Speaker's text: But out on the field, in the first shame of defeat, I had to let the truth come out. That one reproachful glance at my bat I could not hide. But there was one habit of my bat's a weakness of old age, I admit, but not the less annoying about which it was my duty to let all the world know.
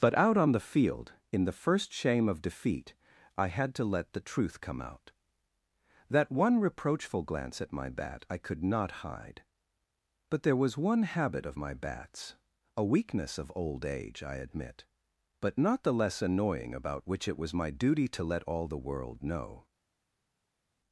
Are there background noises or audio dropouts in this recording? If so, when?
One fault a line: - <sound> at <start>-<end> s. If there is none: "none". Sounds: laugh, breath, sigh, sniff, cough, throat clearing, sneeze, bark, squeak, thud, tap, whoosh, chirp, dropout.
none